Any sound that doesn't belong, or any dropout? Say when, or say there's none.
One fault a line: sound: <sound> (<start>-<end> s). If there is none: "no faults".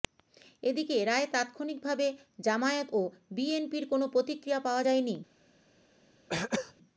sound: throat clearing (6.3-6.7 s)